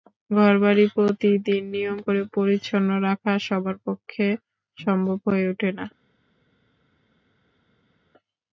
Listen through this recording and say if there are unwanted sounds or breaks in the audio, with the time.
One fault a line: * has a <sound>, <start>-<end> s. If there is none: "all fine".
all fine